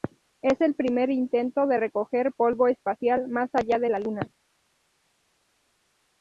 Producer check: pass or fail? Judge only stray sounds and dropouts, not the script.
pass